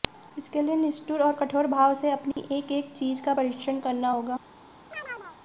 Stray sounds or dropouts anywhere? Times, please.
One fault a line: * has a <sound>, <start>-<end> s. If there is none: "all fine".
* has a dropout, 2.3-2.4 s
* has a chirp, 4.9-5.4 s